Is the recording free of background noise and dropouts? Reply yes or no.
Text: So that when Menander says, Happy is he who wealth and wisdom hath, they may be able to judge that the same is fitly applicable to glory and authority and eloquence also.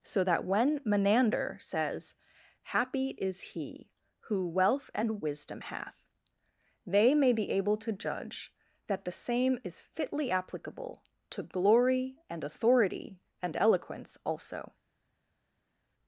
yes